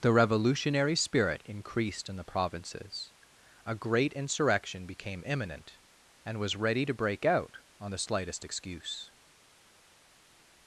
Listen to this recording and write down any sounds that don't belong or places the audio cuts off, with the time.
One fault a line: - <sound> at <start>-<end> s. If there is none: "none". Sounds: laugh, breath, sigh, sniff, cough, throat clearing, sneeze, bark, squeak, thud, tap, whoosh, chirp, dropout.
none